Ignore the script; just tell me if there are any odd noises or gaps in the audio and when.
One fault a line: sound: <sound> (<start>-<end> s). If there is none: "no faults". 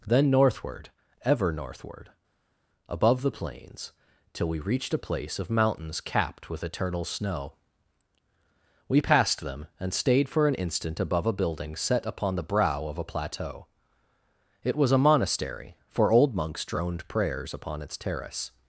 no faults